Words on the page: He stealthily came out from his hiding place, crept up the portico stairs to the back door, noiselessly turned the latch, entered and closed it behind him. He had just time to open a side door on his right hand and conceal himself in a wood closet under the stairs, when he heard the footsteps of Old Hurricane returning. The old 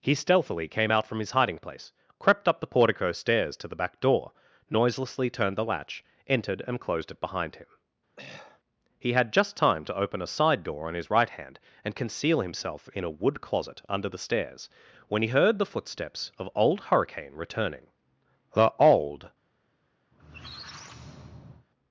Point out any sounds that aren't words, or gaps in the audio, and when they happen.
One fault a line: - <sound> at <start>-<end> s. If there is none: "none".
- throat clearing at 8.2-8.6 s
- squeak at 20.1-21.7 s